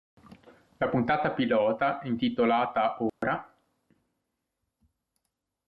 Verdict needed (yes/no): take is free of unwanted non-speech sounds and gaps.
no